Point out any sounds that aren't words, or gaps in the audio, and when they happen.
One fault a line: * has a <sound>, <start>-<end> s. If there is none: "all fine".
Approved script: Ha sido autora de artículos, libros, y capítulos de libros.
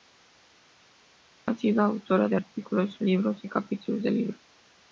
all fine